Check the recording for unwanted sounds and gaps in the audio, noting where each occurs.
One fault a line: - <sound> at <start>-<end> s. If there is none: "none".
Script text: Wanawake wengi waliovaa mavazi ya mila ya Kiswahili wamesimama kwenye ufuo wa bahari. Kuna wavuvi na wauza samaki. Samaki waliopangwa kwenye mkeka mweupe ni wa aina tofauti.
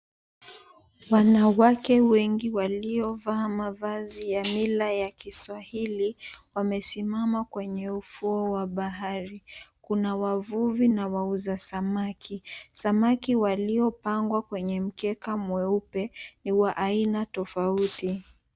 none